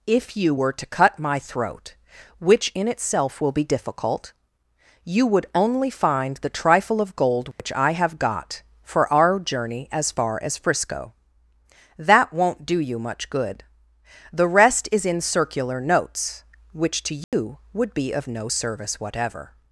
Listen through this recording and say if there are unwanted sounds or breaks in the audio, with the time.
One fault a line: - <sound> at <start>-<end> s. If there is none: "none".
- dropout at 7.5-7.6 s
- dropout at 17.2-17.3 s